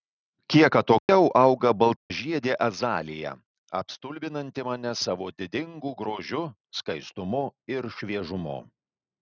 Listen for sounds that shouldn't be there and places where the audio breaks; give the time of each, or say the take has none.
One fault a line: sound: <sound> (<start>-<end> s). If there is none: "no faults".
sound: dropout (1.0-1.1 s)
sound: dropout (2.0-2.1 s)